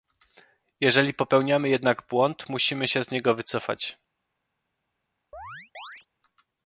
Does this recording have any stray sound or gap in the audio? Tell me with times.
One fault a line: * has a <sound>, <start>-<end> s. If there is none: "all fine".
* has a chirp, 5.3-6.1 s